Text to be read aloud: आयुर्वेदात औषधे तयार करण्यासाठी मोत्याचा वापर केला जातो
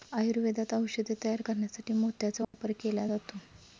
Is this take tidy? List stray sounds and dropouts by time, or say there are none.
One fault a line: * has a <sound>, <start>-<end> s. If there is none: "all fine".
* has a dropout, 2.4-2.5 s